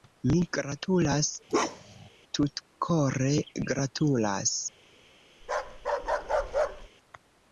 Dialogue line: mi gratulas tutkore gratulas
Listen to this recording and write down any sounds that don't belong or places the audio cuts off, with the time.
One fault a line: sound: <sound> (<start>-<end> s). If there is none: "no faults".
sound: bark (1.5-2.1 s)
sound: bark (5.4-6.9 s)